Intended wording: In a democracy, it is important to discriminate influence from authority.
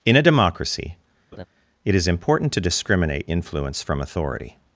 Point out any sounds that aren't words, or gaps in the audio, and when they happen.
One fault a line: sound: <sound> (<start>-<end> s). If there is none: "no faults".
sound: laugh (1.3-1.4 s)